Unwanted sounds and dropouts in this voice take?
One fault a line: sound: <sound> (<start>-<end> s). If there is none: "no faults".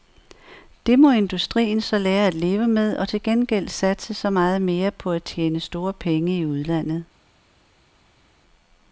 no faults